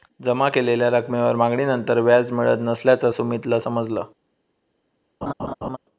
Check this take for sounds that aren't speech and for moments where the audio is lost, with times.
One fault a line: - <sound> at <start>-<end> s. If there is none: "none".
- laugh at 5.2-5.8 s